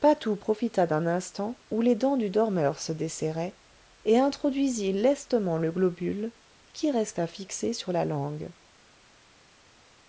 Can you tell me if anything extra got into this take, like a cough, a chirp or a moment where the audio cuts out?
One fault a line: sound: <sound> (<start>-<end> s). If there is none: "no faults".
no faults